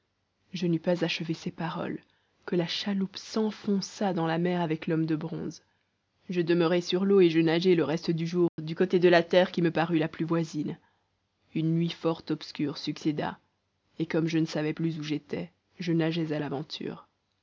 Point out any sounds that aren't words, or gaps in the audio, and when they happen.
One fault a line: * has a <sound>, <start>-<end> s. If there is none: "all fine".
* has a dropout, 8.5-8.6 s